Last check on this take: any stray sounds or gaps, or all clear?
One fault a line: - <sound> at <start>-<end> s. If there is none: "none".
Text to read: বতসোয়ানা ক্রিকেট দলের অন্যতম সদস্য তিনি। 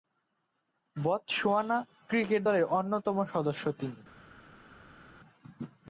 none